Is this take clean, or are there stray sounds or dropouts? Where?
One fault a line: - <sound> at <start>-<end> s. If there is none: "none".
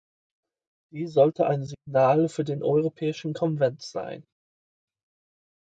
none